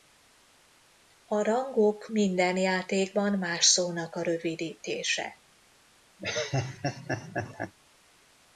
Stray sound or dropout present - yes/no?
yes